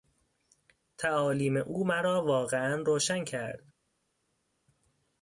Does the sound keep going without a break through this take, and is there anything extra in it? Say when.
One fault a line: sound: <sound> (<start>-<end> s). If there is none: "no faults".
no faults